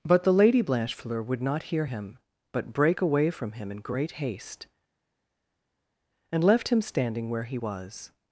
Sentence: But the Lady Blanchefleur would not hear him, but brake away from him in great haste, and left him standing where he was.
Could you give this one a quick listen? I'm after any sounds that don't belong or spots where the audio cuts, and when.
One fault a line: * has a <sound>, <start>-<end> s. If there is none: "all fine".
all fine